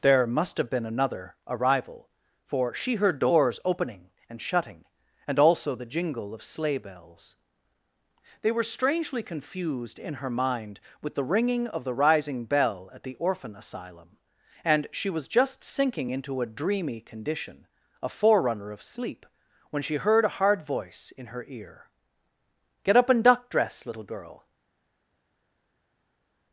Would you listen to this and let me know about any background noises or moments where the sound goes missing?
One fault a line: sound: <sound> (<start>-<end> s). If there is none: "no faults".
no faults